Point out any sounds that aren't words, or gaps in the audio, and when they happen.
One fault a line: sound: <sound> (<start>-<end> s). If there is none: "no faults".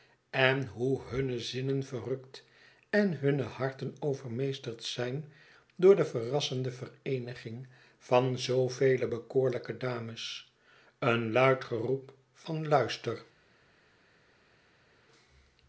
no faults